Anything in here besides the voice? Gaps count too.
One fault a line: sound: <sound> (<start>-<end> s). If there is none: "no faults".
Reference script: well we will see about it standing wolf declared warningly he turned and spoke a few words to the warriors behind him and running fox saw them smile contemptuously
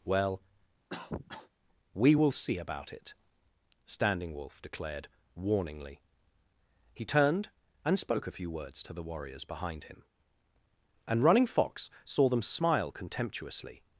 sound: cough (0.9-1.5 s)